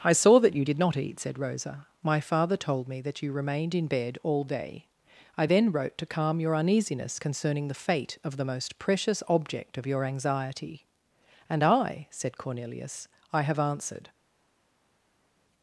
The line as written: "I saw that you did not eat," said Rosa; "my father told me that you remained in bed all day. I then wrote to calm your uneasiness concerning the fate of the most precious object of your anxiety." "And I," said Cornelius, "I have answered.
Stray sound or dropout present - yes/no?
no